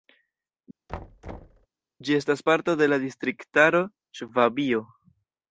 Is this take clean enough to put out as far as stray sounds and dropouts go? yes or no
no